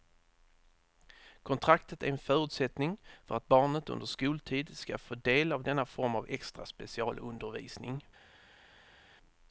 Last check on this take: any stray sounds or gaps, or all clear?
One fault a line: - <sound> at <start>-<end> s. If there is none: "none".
none